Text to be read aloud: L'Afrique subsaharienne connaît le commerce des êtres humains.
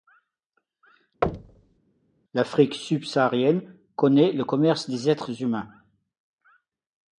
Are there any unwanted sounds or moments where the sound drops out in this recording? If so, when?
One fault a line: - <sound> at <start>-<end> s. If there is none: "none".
- thud at 1.2-1.8 s